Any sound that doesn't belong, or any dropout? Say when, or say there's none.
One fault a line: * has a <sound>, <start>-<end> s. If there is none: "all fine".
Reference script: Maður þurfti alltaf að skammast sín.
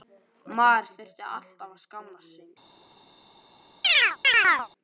* has a chirp, 3.8-4.7 s